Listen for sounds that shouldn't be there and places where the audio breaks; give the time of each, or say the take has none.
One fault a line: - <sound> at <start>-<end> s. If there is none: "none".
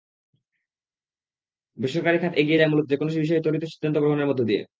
none